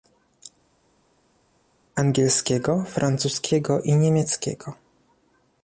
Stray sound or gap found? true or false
false